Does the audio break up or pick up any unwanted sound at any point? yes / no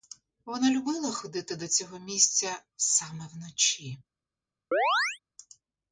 yes